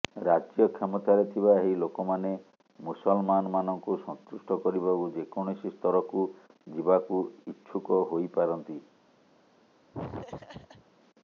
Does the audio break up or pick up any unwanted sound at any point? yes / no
yes